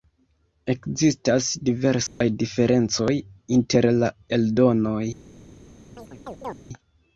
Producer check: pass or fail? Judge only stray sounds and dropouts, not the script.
fail